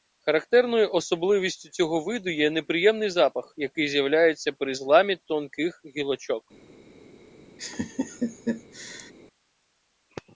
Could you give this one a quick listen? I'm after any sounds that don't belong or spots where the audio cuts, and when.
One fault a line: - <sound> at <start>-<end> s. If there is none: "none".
- laugh at 7.6-9.1 s